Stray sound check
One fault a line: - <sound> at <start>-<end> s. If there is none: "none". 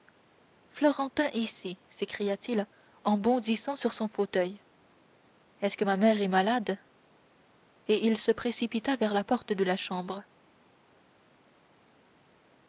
none